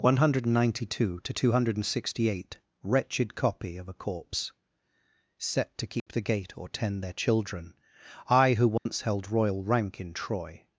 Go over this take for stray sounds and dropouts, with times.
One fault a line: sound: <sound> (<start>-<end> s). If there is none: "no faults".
sound: dropout (6.0-6.1 s)
sound: dropout (8.8-8.9 s)